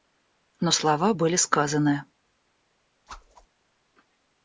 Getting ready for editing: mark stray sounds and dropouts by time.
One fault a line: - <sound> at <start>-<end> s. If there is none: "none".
- whoosh at 3.1-3.5 s